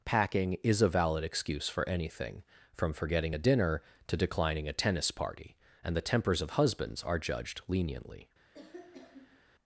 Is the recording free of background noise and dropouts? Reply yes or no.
no